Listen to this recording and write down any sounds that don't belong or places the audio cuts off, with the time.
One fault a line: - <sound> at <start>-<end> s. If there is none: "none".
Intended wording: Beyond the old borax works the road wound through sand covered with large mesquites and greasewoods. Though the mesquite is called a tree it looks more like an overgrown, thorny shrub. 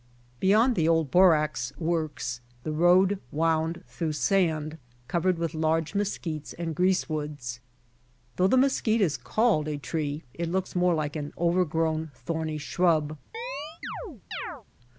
- chirp at 13.3-14.6 s